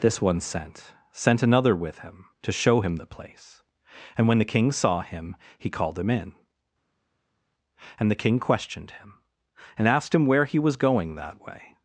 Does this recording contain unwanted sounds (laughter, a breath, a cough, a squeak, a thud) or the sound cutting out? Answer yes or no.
no